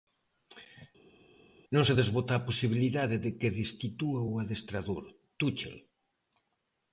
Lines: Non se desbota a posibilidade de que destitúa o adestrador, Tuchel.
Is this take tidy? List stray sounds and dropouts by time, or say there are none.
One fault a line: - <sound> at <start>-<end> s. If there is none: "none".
none